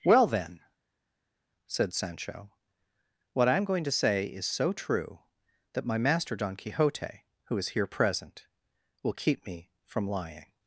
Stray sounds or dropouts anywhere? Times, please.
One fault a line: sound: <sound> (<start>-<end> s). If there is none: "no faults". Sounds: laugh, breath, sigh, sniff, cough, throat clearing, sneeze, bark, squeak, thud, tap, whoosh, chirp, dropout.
no faults